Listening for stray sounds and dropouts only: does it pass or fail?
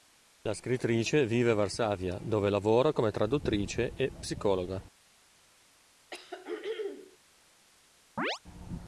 fail